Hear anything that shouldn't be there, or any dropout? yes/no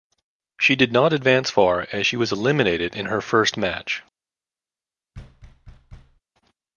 yes